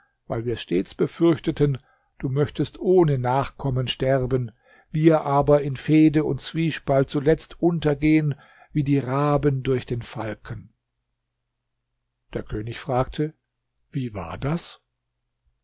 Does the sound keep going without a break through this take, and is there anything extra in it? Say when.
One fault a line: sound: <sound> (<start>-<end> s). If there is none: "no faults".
no faults